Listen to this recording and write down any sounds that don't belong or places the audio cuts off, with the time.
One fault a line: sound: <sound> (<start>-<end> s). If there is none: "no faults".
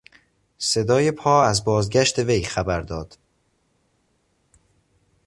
no faults